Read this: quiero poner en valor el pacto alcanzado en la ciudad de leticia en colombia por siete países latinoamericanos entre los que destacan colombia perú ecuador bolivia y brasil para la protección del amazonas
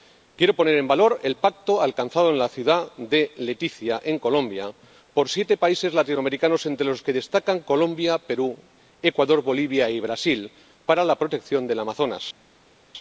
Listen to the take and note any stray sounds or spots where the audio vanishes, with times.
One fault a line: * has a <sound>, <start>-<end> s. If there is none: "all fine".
all fine